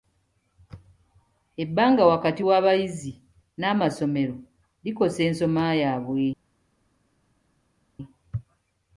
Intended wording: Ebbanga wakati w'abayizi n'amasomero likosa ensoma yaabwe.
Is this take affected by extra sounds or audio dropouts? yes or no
no